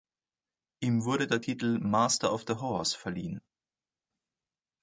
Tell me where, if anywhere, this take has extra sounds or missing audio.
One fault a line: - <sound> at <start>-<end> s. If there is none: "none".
none